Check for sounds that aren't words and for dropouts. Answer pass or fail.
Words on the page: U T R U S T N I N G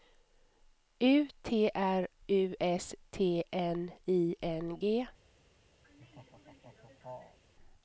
fail